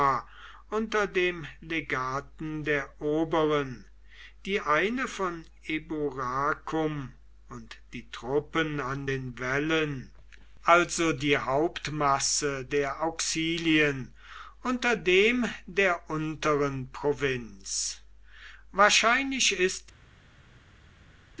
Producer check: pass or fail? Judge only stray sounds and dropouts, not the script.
pass